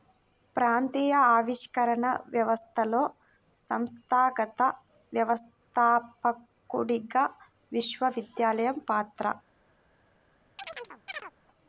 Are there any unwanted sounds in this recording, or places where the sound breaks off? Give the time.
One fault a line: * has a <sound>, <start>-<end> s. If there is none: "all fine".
* has a chirp, 10.6-11.3 s